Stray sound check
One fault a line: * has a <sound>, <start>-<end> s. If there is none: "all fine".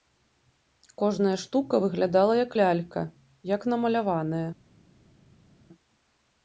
all fine